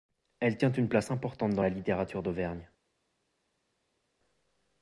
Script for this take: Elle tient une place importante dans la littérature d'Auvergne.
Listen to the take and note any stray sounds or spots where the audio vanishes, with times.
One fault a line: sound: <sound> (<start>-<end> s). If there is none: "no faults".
no faults